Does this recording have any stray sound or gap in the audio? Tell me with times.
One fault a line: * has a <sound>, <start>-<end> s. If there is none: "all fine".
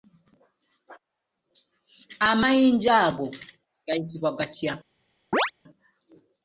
* has a chirp, 5.3-5.5 s